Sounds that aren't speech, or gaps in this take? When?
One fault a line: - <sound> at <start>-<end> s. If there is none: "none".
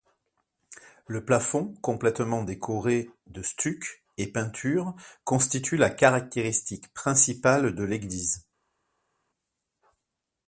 none